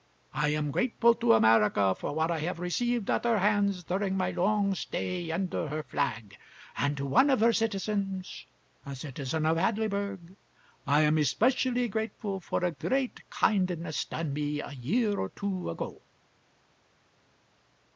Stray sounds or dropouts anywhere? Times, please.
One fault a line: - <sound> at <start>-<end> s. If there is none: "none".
none